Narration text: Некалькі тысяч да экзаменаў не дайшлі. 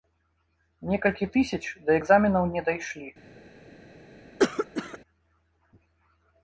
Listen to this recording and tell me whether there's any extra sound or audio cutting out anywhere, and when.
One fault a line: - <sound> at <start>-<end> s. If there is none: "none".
- cough at 4.4-5.0 s